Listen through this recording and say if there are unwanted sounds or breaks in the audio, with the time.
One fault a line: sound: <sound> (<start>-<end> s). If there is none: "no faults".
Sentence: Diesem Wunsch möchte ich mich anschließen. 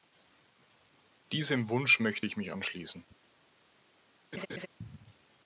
sound: laugh (4.3-4.7 s)